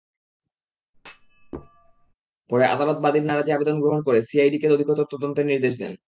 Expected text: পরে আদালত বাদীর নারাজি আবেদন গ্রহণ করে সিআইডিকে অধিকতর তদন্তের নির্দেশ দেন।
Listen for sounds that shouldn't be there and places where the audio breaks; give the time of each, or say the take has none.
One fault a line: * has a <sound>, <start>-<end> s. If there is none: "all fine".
* has a thud, 0.9-2.1 s